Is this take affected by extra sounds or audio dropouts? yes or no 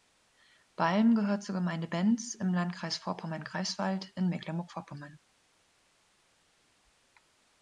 no